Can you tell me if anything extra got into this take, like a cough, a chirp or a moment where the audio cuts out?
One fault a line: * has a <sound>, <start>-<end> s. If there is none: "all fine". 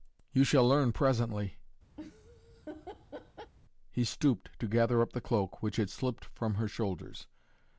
* has a laugh, 2.0-3.5 s